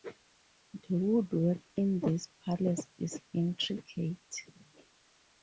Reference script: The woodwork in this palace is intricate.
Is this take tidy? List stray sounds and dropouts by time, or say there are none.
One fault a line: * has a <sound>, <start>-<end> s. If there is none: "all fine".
all fine